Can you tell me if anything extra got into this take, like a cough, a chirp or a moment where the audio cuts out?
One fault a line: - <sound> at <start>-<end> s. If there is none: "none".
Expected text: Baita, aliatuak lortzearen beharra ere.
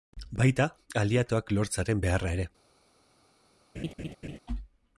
- laugh at 3.7-4.4 s